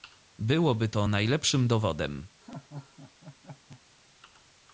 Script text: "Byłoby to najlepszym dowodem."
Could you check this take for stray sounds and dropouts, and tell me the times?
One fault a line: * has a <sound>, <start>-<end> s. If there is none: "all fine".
* has a laugh, 2.4-3.8 s